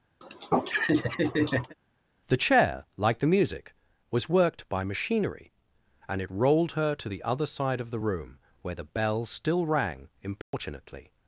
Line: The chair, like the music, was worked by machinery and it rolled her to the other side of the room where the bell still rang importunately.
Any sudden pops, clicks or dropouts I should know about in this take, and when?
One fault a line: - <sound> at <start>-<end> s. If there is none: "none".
- laugh at 0.2-1.7 s
- dropout at 10.4-10.5 s